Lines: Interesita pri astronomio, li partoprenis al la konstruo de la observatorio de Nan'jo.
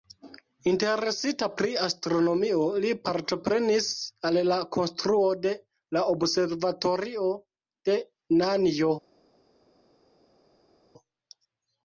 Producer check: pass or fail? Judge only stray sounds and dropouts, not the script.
pass